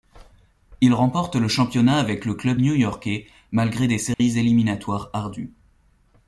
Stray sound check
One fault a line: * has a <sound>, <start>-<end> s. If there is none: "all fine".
* has a dropout, 4.1-4.2 s